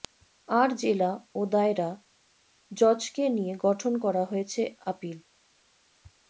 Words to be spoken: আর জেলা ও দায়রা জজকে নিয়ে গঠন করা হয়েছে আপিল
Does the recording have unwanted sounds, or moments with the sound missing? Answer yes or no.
no